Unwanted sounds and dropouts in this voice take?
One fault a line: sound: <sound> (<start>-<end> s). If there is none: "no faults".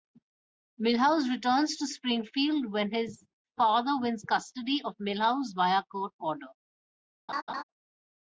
sound: laugh (7.3-7.6 s)